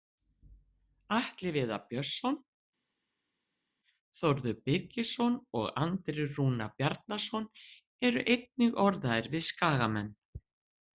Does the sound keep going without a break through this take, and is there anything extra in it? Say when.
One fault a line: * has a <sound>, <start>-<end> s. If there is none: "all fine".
all fine